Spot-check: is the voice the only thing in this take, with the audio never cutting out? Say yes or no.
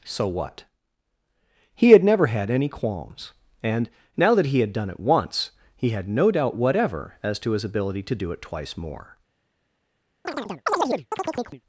no